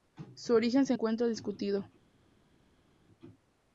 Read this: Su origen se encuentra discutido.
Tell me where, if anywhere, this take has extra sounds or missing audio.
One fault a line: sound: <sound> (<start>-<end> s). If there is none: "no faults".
no faults